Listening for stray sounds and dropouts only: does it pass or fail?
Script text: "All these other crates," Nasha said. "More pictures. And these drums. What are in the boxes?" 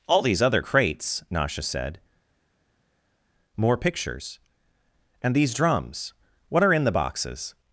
pass